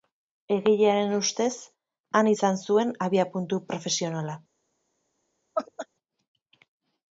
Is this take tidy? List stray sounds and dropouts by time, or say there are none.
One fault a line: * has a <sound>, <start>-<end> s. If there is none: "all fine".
* has a laugh, 5.5-5.9 s